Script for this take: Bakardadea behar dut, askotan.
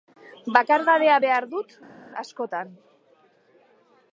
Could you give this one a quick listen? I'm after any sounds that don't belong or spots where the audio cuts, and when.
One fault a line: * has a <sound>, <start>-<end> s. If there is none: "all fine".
all fine